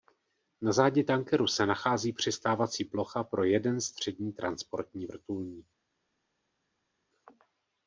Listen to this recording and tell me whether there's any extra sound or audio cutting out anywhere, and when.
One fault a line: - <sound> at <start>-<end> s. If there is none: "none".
none